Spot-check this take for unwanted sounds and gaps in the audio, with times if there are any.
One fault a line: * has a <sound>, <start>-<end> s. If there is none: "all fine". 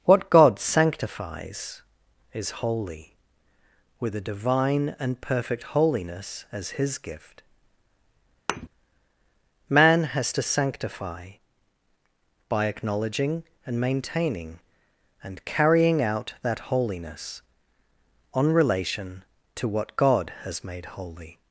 * has a thud, 8.5-8.7 s